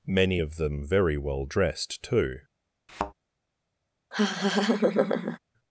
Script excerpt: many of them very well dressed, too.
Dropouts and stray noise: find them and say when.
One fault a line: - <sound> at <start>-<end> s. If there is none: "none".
- thud at 2.9-3.1 s
- laugh at 4.1-5.4 s